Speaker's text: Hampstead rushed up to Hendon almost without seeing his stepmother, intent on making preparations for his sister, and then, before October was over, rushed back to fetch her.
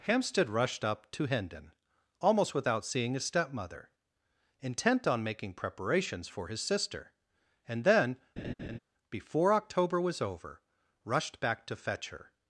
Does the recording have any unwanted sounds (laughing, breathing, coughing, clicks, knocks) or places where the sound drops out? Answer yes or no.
yes